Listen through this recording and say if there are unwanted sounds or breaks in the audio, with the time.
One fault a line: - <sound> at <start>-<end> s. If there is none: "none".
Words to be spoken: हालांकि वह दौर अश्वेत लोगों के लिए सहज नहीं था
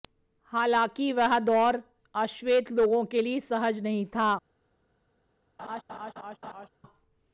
- laugh at 5.6-6.7 s